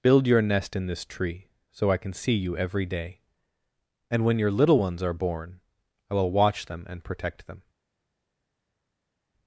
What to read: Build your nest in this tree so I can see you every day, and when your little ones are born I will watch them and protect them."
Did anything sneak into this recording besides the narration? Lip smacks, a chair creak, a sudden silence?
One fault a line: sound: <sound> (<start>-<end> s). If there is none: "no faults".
no faults